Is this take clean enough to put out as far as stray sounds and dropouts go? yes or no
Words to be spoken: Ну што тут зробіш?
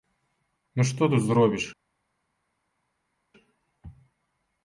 yes